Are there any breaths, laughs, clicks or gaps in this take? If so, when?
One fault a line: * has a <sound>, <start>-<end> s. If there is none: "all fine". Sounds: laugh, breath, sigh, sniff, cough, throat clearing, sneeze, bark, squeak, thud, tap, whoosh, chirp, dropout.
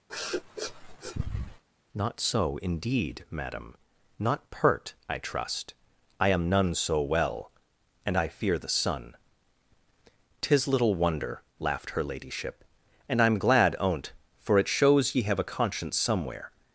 * has a sniff, 0.1-1.6 s